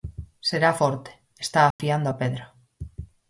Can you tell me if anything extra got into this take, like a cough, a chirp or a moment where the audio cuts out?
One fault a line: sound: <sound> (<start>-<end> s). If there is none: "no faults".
sound: dropout (1.7-1.8 s)